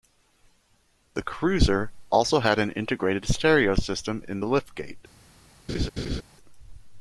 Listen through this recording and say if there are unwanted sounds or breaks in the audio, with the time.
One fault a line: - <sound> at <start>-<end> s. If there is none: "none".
- laugh at 5.7-6.2 s